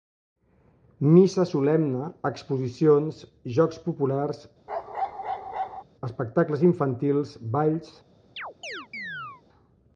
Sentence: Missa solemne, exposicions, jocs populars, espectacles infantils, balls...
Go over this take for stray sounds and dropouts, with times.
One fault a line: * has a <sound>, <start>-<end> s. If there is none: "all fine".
* has a bark, 4.7-5.8 s
* has a chirp, 8.4-9.4 s